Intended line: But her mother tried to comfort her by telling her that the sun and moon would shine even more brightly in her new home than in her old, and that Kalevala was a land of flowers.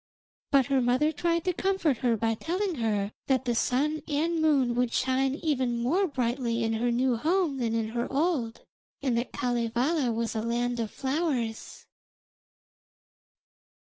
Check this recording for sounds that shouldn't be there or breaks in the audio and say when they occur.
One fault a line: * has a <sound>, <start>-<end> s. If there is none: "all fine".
all fine